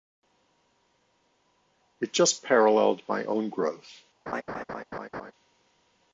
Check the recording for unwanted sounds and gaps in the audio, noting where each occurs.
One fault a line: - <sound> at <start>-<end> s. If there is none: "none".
- laugh at 4.3-5.3 s